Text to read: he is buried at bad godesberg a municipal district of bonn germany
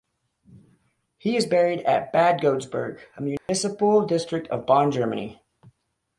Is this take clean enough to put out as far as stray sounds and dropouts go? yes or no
no